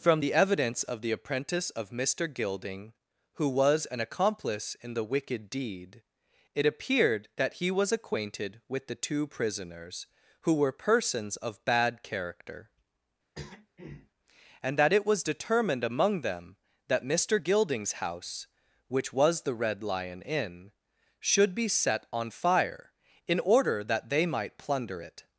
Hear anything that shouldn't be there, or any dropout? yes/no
yes